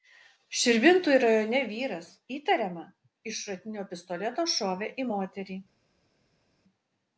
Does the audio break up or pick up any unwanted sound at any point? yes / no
no